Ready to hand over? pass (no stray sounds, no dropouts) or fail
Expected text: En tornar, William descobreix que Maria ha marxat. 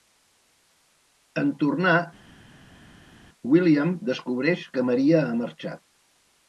pass